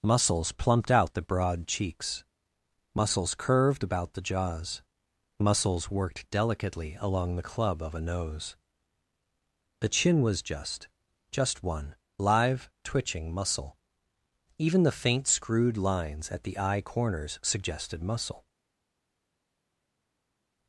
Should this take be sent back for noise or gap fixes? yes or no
no